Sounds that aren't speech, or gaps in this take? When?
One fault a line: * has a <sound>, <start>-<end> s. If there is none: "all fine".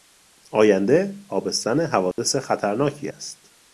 * has a dropout, 2.1-2.2 s